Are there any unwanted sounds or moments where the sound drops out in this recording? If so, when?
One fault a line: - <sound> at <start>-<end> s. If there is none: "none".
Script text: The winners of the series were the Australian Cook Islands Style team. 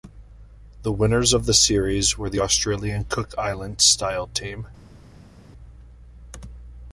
none